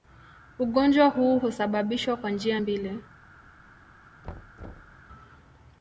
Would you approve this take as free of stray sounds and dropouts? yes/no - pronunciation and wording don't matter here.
no